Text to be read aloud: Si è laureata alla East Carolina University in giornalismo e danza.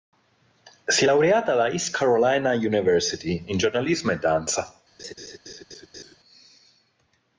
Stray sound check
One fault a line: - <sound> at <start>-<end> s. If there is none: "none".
- laugh at 5.0-6.2 s